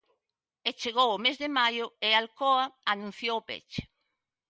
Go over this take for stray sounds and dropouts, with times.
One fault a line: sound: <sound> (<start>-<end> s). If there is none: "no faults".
no faults